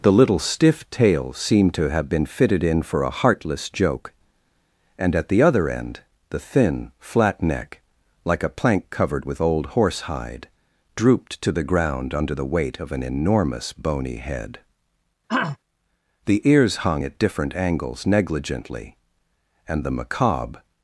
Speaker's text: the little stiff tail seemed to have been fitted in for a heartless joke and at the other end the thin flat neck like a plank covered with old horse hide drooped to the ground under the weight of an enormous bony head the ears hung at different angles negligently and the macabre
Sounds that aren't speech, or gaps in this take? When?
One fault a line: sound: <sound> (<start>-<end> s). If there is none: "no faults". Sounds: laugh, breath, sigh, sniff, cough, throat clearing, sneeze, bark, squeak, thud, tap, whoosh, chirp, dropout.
sound: throat clearing (15.3-15.6 s)